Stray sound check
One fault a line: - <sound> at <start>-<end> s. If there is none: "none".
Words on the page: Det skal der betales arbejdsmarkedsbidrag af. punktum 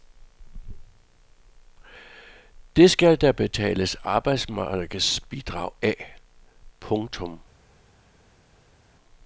none